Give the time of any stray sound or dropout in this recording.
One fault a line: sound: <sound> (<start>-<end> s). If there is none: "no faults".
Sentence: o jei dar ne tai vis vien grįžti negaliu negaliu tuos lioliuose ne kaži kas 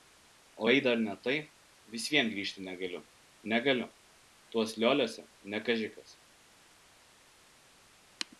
no faults